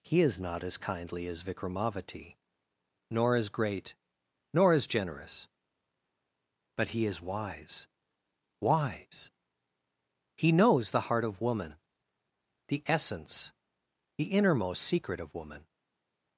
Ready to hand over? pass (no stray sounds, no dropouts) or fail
pass